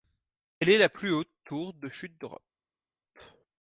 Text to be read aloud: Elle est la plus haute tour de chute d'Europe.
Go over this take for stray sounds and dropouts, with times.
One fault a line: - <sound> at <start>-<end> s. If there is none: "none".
none